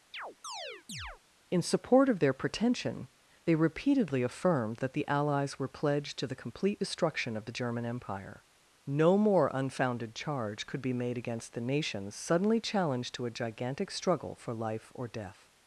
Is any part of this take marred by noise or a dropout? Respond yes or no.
yes